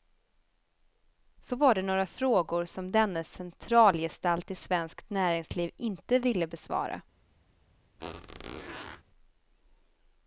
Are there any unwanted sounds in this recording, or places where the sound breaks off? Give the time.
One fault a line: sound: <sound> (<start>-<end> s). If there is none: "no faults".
sound: squeak (8.0-9.0 s)